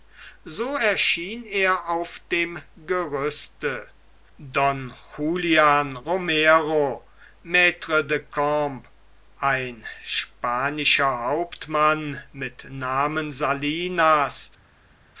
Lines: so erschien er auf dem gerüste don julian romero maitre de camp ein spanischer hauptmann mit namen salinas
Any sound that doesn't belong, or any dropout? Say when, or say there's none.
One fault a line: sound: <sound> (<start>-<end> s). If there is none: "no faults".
no faults